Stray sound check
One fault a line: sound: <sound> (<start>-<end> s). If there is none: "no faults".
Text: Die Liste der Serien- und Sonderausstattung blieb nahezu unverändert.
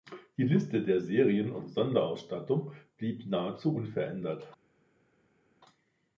no faults